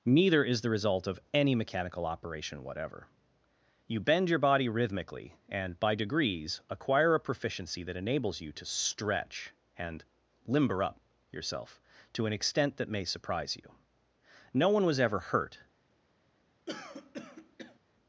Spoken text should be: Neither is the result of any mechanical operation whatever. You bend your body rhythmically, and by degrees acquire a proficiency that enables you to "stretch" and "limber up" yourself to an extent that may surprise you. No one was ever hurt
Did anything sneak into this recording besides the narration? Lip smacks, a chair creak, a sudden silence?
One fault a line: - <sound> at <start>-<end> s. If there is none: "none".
- throat clearing at 16.7-17.8 s